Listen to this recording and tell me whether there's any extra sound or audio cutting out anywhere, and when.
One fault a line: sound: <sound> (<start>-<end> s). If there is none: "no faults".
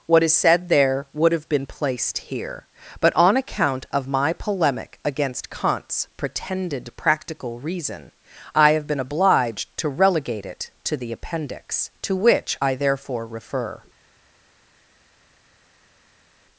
no faults